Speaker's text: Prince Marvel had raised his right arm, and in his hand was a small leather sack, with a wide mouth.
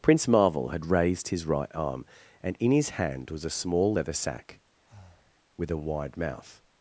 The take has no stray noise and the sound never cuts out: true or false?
false